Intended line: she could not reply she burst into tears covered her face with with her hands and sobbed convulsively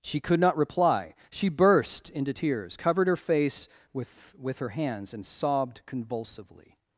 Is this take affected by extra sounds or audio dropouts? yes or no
no